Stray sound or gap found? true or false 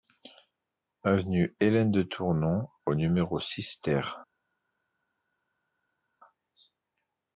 false